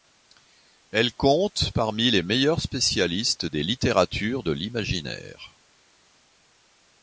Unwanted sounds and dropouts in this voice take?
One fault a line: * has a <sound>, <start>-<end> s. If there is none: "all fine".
all fine